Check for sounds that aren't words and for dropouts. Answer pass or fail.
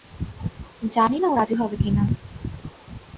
pass